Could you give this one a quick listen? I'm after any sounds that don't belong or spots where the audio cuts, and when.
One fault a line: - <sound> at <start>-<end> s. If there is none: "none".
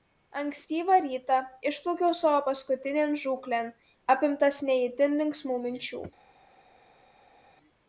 none